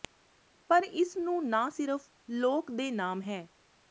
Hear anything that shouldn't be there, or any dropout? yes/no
no